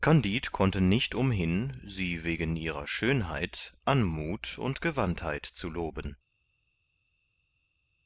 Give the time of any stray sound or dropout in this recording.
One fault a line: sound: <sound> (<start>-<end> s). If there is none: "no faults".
no faults